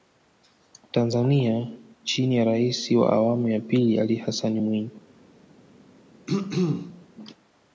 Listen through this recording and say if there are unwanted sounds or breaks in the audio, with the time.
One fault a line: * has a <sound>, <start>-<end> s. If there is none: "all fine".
* has a throat clearing, 6.3-7.0 s